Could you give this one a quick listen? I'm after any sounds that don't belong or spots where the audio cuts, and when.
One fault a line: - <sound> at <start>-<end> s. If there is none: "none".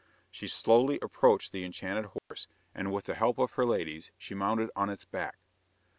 - dropout at 2.2-2.3 s